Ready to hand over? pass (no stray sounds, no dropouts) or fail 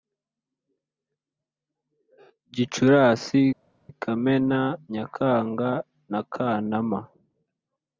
pass